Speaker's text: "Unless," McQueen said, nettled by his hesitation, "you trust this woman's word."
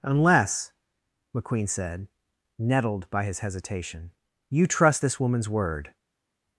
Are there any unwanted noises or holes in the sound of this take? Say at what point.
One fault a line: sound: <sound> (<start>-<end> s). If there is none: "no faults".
no faults